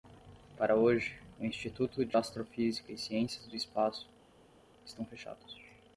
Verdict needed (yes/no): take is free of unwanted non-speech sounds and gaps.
yes